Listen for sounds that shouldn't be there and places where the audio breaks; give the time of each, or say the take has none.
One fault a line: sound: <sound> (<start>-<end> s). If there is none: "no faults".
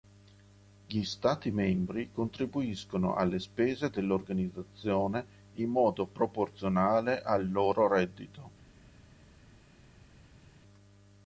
no faults